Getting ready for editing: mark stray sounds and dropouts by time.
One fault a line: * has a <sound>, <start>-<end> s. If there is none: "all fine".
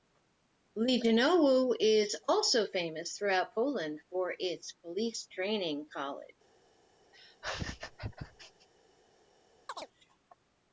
* has a laugh, 7.1-8.7 s
* has a chirp, 9.7-9.9 s